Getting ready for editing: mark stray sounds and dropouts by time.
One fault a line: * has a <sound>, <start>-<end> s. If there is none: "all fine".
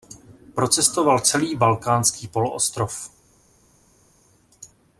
all fine